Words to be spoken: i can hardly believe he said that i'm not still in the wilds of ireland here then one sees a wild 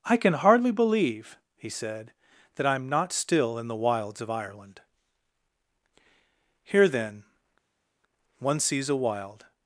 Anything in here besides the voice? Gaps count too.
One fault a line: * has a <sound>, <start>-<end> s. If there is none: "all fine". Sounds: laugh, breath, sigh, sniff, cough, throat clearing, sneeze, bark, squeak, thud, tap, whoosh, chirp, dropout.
all fine